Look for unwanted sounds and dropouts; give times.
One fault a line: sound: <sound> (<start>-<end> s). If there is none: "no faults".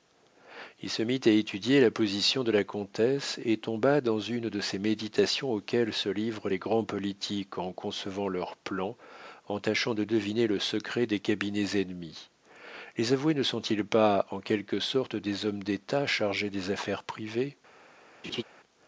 sound: laugh (18.2-18.4 s)